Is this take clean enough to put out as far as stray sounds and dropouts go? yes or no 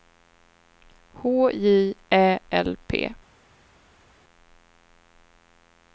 yes